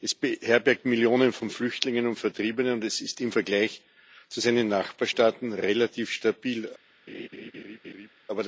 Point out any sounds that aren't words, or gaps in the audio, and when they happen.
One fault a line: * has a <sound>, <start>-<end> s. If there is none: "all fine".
* has a laugh, 7.1-8.1 s